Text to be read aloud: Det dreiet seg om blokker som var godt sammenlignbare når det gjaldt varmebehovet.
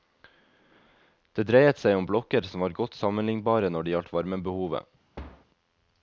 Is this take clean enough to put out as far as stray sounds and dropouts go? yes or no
no